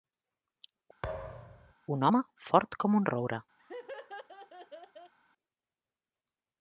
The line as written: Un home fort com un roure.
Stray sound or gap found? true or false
true